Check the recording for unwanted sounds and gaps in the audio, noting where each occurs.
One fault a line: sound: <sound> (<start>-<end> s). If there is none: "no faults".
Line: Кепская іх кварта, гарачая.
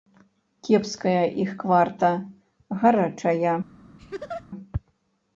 sound: laugh (4.0-4.5 s)